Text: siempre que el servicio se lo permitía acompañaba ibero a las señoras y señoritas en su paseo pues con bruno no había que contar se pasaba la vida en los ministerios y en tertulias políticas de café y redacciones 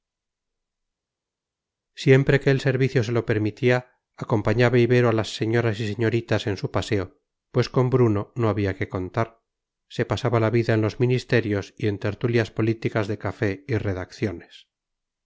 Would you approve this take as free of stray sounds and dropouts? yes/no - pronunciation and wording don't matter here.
yes